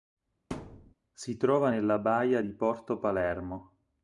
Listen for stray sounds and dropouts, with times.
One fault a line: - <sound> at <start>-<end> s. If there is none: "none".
- thud at 0.5-0.9 s